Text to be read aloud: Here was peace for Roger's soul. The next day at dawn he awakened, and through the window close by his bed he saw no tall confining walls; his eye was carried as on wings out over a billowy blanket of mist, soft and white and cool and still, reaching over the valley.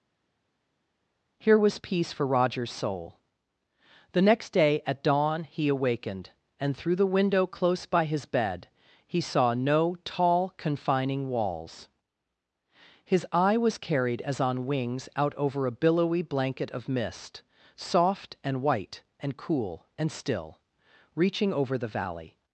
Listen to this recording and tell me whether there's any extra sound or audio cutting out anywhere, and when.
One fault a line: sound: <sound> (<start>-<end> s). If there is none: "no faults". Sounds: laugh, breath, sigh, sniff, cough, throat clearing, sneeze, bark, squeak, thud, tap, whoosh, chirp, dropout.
no faults